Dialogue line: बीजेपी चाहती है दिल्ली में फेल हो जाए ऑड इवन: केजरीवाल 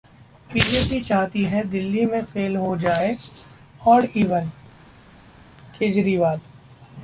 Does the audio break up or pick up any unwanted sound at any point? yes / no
no